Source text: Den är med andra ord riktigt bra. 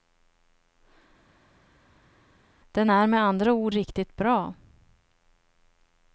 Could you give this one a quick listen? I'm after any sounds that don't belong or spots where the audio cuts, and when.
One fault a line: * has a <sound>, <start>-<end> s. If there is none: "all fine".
all fine